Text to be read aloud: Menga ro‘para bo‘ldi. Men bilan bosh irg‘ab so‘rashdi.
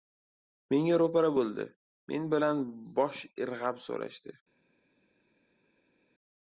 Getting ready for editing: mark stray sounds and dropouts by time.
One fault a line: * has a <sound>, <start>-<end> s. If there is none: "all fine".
all fine